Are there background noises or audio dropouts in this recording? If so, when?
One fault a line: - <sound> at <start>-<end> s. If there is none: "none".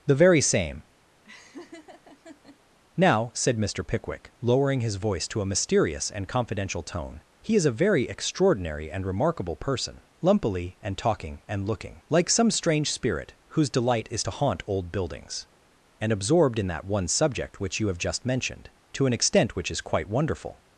- laugh at 1.2-2.6 s